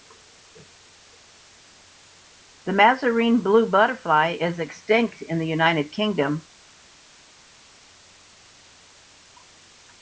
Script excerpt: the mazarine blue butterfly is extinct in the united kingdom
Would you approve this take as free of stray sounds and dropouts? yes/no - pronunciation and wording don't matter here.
yes